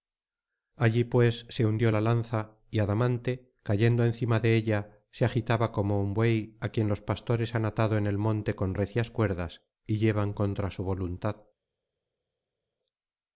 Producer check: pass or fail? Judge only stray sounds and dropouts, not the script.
pass